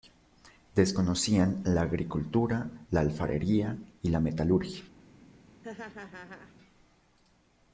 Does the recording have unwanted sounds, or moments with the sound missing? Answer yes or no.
yes